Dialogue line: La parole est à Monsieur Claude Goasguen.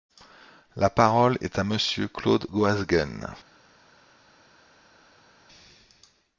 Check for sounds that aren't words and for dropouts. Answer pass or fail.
pass